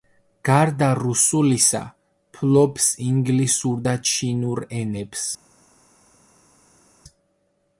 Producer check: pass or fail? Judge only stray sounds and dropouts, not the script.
pass